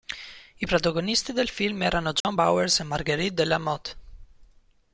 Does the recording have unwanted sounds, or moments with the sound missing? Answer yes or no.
yes